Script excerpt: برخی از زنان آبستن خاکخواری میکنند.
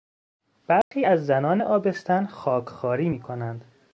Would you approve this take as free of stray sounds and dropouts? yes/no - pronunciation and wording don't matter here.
no